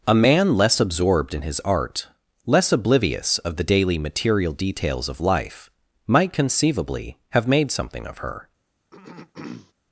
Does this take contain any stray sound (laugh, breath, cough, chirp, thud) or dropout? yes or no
yes